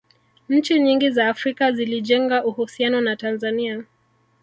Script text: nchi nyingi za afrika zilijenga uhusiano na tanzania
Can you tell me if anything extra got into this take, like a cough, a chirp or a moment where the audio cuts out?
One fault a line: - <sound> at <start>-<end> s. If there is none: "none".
none